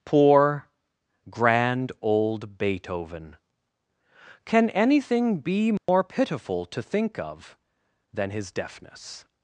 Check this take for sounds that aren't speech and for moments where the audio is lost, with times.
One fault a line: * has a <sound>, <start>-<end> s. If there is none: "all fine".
* has a dropout, 5.8-5.9 s